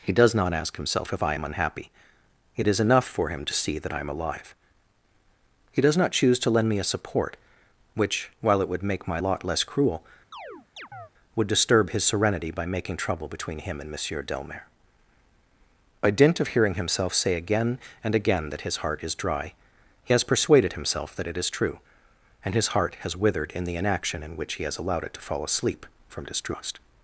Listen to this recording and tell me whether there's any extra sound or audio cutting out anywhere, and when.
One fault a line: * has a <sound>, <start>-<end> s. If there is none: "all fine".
* has a chirp, 10.3-11.1 s